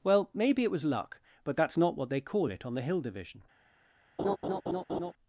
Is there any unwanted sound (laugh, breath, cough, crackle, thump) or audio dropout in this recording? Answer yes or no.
yes